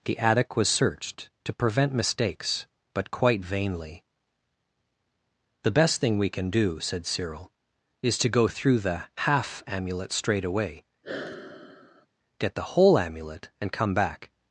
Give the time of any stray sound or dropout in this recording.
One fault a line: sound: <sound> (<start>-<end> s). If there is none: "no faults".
sound: sigh (11.0-12.1 s)